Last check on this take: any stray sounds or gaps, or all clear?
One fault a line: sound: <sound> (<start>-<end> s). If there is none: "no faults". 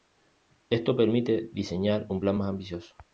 no faults